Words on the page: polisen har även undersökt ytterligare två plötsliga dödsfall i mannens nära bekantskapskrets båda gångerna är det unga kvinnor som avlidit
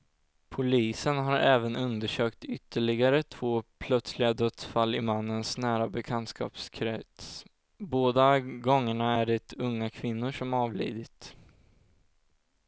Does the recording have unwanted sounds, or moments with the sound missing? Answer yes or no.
no